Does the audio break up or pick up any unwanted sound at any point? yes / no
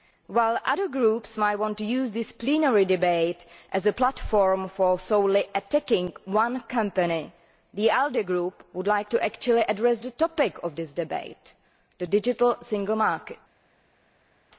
no